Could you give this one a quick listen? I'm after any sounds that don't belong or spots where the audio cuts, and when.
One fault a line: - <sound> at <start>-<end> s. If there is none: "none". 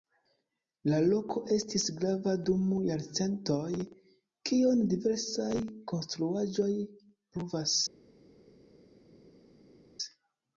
none